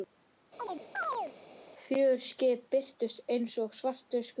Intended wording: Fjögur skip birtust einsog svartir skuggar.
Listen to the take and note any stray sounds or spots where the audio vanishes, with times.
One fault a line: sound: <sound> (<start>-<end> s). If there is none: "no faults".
sound: chirp (0.6-1.4 s)